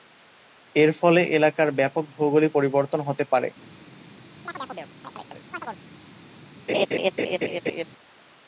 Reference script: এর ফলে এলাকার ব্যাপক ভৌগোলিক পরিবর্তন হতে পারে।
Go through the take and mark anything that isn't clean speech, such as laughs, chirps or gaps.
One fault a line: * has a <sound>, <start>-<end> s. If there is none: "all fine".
* has a chirp, 4.5-5.8 s
* has a laugh, 6.7-7.8 s